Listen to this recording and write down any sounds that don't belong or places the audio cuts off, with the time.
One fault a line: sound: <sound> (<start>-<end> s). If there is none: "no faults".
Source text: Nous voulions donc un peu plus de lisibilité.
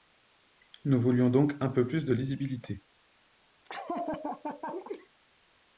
sound: laugh (3.6-5.1 s)